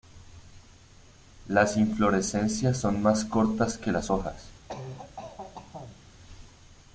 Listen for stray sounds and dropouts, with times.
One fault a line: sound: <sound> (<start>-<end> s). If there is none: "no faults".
sound: cough (4.7-6.0 s)